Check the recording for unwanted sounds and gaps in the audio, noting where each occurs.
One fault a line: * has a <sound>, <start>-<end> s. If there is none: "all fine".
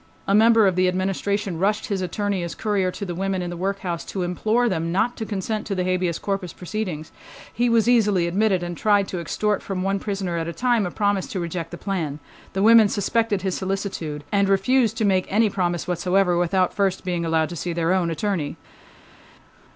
all fine